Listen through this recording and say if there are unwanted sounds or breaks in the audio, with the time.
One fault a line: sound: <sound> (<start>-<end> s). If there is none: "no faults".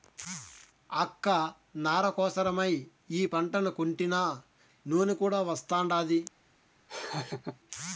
sound: laugh (6.9-7.6 s)